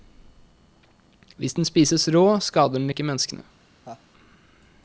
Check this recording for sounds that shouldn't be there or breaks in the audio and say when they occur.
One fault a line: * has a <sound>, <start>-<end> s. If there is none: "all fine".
* has a laugh, 3.8-4.0 s